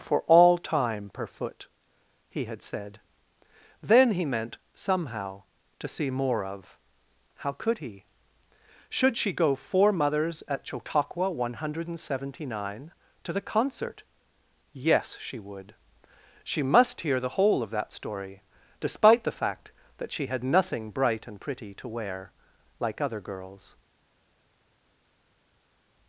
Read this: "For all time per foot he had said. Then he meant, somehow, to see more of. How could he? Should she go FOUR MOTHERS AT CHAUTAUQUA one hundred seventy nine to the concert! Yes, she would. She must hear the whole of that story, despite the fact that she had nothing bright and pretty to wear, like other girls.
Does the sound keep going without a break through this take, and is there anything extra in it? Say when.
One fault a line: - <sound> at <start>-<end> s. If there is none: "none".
none